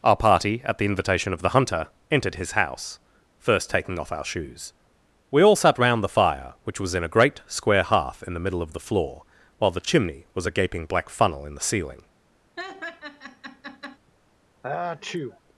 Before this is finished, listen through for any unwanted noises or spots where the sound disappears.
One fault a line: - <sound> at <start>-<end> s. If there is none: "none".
- laugh at 12.6-14.0 s
- sneeze at 14.6-15.4 s